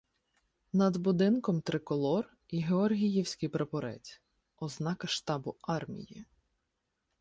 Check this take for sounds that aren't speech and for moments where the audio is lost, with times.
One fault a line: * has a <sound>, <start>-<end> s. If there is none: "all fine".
all fine